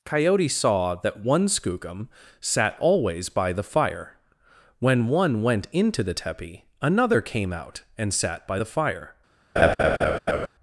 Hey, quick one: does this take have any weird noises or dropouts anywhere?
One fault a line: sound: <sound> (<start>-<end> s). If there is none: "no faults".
sound: laugh (9.6-10.5 s)